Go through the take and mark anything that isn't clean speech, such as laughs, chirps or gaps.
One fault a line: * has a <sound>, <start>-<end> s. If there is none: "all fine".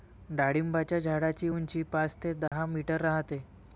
* has a dropout, 2.5-2.5 s